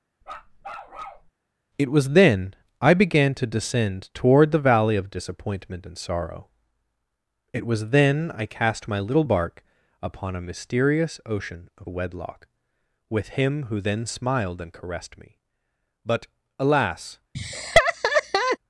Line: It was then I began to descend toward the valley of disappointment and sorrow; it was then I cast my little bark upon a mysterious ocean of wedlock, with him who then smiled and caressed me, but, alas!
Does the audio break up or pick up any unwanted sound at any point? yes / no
yes